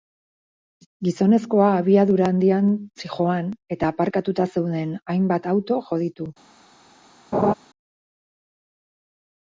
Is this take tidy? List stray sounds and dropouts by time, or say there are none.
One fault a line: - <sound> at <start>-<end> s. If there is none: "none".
- laugh at 7.3-7.5 s